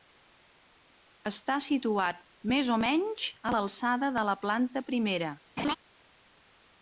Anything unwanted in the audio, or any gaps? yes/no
yes